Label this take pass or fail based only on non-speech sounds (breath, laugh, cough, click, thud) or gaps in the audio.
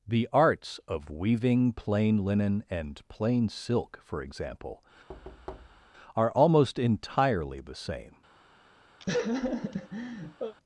fail